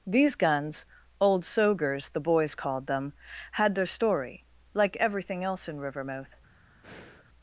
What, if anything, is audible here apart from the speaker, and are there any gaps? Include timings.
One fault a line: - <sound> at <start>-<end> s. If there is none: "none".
- breath at 6.8-7.3 s